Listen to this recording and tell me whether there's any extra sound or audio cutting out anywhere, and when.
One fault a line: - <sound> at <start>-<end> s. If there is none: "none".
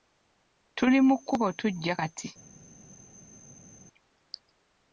none